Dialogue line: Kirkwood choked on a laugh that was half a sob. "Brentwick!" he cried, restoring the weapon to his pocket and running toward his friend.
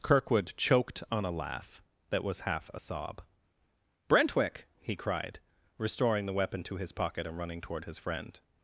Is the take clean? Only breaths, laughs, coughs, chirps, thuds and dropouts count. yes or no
yes